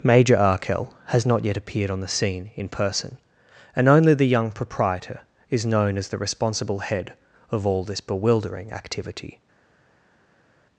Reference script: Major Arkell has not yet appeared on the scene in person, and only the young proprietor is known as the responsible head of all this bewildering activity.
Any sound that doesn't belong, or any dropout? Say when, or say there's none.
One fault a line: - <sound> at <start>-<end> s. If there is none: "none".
none